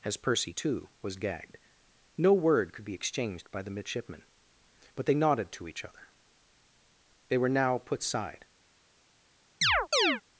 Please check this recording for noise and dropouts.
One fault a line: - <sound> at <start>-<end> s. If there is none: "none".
- chirp at 9.6-10.2 s